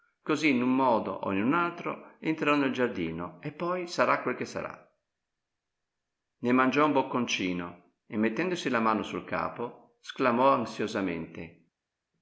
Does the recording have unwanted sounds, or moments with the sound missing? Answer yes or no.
no